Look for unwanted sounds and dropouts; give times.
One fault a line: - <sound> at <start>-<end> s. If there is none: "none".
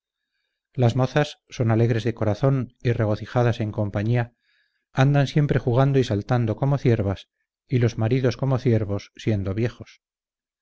none